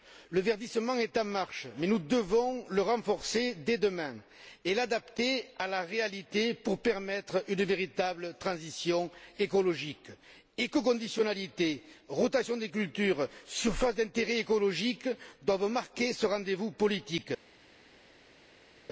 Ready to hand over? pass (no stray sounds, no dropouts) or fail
pass